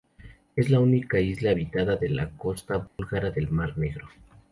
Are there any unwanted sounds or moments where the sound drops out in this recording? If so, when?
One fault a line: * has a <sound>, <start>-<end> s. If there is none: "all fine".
* has a dropout, 2.9-3.0 s